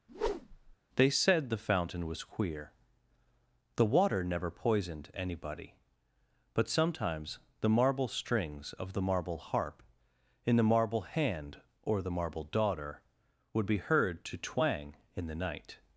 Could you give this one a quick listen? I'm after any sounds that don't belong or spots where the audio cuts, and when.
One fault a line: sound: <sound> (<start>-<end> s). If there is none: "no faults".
sound: whoosh (0.1-0.8 s)